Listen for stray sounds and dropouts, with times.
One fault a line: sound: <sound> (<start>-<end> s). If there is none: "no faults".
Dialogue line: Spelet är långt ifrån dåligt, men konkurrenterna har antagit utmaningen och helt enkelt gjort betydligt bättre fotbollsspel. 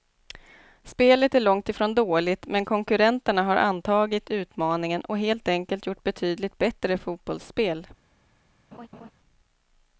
sound: laugh (8.7-9.1 s)